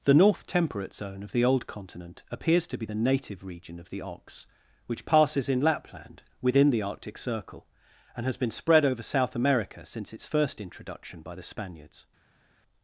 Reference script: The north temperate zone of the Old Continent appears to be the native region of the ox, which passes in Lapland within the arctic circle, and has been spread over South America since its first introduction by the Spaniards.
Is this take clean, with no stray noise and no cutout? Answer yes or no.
yes